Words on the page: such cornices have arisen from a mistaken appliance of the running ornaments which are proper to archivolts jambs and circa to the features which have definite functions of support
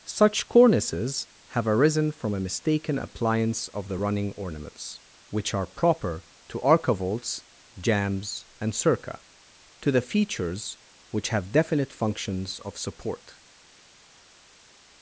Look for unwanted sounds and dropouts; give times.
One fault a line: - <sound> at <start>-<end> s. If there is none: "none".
none